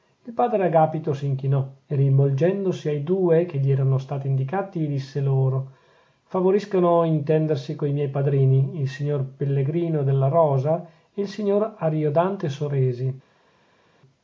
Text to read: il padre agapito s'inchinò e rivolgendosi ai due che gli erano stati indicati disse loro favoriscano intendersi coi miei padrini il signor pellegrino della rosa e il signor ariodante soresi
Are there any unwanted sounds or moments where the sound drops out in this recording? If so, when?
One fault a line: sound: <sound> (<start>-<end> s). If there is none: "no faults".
no faults